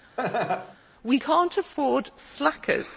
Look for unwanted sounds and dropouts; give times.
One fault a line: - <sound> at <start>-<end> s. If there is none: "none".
- laugh at 0.2-0.8 s